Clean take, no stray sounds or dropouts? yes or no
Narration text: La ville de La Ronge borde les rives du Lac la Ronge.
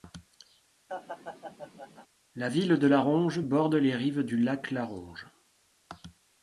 no